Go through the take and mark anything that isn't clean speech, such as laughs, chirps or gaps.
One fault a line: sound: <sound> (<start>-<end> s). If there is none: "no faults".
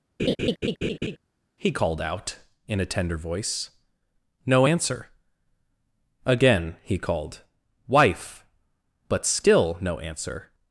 sound: laugh (0.2-1.2 s)